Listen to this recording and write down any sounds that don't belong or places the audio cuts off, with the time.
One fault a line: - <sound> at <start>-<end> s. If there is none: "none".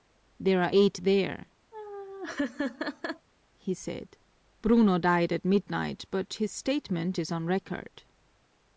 - laugh at 1.7-3.3 s